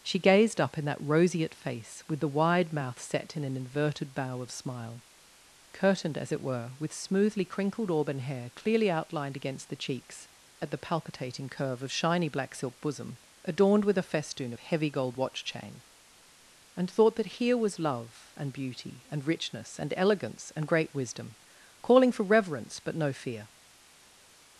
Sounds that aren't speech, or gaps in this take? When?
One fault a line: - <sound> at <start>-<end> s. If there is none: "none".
none